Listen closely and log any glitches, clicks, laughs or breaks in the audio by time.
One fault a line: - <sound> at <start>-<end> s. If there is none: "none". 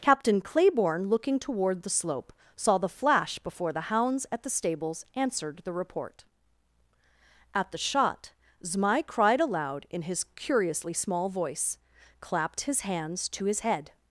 none